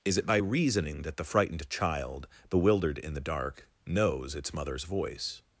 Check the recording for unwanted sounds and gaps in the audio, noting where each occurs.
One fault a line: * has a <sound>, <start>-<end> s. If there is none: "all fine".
all fine